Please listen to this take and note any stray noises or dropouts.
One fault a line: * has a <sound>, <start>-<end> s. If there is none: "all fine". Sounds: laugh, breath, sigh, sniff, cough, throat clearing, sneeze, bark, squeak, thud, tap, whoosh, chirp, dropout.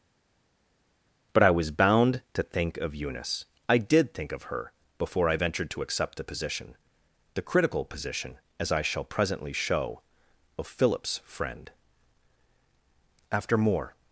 all fine